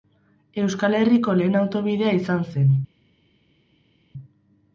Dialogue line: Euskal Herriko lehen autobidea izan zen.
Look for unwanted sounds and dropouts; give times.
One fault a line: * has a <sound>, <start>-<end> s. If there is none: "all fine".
all fine